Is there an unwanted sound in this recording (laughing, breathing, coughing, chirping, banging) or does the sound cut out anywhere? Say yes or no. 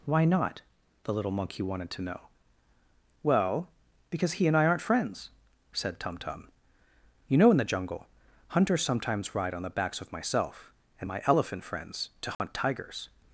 yes